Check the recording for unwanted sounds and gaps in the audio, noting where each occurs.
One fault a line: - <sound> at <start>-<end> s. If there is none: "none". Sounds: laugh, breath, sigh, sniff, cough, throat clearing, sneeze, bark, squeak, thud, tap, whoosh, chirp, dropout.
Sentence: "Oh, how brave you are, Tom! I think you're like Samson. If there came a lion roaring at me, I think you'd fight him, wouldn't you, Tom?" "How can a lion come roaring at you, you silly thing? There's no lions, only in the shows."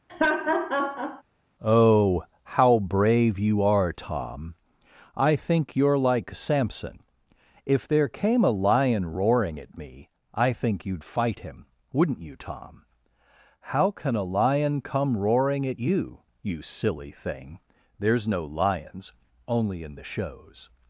- laugh at 0.1-1.2 s